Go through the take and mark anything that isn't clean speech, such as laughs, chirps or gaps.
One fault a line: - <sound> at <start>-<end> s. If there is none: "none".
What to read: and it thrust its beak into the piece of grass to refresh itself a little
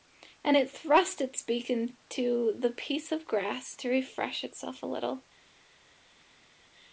none